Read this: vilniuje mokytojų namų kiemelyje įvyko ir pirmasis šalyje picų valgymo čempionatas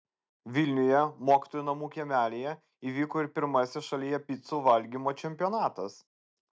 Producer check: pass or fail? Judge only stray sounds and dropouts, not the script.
pass